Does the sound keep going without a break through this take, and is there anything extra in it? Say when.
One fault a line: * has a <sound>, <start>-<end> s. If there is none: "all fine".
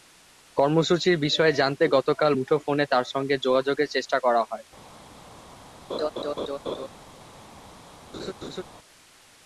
* has a laugh, 5.9-6.9 s
* has a laugh, 8.1-8.6 s